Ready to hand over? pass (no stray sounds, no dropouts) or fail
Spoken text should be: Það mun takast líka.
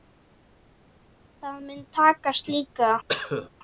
fail